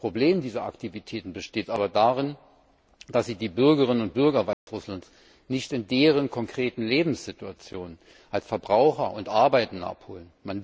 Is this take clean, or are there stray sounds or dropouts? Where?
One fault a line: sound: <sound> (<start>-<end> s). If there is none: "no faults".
sound: dropout (4.5-4.7 s)